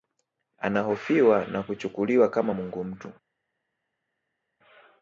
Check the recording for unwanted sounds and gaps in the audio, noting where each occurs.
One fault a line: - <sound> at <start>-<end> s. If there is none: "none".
none